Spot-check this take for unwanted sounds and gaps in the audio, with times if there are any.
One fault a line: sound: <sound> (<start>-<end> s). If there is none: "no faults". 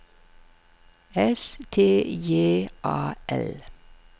no faults